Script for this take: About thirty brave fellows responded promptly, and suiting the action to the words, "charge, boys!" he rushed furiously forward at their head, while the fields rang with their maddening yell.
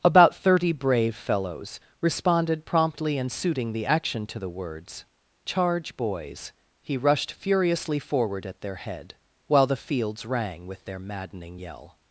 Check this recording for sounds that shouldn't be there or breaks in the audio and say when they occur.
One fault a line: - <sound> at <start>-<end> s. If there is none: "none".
none